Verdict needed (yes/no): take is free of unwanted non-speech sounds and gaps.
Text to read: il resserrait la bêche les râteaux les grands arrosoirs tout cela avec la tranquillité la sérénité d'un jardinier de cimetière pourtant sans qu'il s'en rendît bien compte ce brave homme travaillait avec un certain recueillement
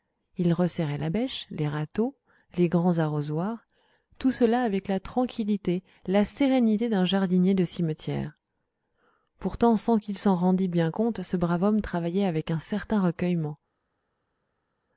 yes